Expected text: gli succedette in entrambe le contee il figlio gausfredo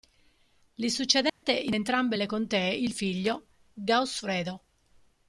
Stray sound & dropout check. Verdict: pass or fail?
fail